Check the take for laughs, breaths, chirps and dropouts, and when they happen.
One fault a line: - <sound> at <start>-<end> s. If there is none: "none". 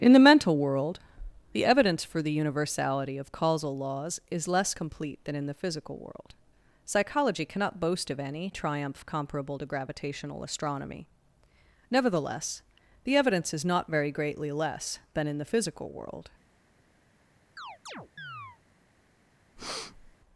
- chirp at 17.6-18.6 s
- breath at 19.6-20.2 s